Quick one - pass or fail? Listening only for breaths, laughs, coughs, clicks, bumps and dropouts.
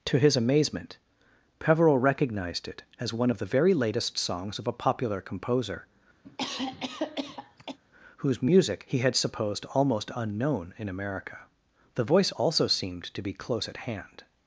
fail